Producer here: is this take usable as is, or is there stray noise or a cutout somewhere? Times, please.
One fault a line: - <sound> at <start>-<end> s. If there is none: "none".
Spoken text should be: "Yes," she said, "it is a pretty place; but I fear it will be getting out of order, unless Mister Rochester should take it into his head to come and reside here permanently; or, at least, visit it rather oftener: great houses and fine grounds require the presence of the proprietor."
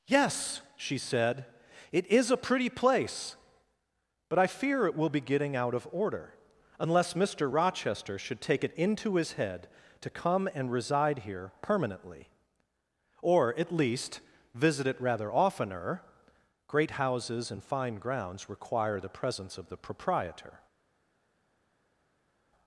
none